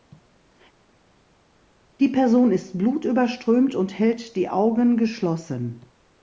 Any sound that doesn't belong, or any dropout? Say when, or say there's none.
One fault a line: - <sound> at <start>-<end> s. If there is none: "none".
none